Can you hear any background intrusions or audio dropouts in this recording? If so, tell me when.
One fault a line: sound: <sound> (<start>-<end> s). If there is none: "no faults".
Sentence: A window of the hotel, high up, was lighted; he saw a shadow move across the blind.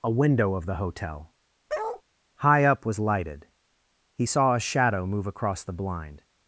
sound: bark (1.7-2.0 s)